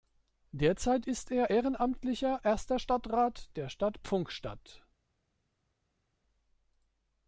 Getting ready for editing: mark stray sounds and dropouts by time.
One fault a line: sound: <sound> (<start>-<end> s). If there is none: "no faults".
no faults